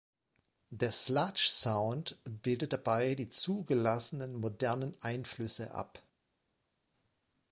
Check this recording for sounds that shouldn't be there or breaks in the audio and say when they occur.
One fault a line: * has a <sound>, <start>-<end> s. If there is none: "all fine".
all fine